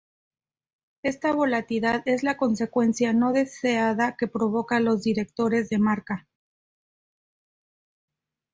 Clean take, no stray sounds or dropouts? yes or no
yes